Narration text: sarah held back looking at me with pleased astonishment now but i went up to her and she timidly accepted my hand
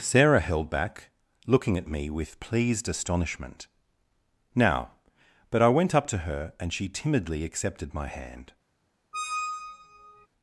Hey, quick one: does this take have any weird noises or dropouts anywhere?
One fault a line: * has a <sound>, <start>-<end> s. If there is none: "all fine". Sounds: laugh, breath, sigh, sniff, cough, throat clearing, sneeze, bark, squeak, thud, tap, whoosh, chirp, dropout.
* has a squeak, 9.1-10.3 s